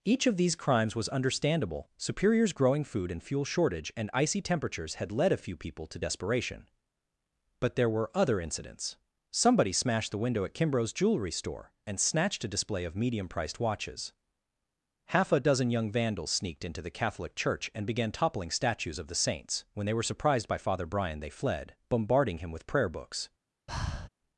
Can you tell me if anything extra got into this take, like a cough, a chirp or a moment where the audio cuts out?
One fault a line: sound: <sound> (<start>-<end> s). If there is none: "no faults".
sound: breath (23.7-24.1 s)